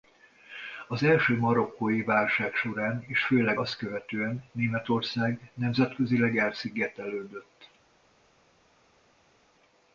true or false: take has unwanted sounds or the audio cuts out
false